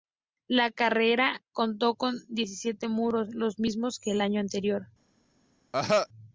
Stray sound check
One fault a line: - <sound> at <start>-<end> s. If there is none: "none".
- cough at 5.7-6.1 s